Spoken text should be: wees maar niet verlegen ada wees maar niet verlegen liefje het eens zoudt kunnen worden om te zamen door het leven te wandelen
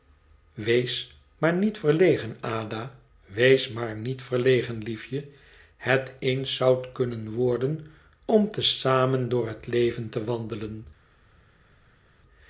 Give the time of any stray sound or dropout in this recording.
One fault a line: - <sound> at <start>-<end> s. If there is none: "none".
none